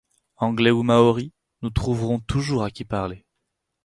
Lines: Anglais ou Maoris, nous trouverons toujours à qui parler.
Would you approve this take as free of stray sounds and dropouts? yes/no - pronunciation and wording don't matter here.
yes